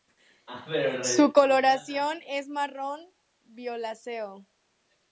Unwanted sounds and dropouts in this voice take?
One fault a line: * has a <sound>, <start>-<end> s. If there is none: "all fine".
all fine